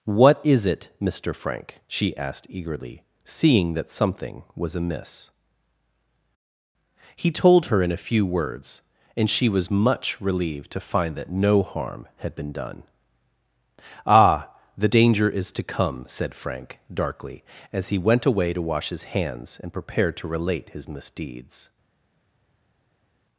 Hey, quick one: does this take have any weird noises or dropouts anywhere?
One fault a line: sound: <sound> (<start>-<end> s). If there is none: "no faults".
no faults